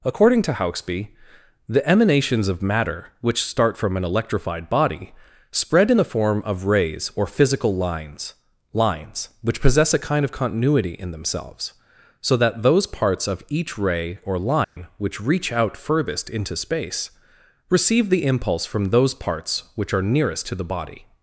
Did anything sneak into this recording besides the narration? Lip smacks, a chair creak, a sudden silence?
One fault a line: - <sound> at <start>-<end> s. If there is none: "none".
- dropout at 14.6-14.8 s